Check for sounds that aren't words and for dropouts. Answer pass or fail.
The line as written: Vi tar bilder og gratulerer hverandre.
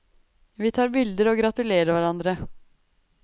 pass